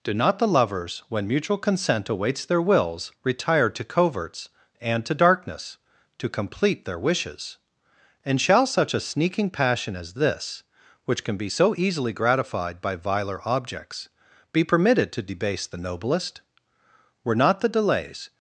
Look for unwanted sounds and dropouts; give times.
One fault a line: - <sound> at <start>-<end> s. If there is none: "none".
none